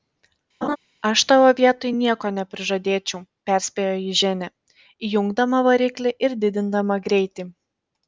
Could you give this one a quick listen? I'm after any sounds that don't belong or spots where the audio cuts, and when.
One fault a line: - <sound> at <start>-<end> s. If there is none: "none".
- laugh at 0.6-0.8 s